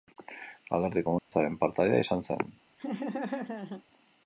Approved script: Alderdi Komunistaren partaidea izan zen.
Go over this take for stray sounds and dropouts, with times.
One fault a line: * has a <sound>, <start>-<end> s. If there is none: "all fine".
* has a dropout, 1.2-1.3 s
* has a laugh, 2.8-3.8 s